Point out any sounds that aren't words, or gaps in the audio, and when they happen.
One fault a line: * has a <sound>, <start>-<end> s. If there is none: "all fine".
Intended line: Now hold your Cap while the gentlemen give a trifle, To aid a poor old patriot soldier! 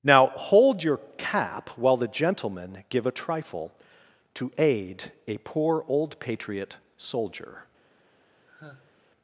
* has a sigh, 8.5-9.0 s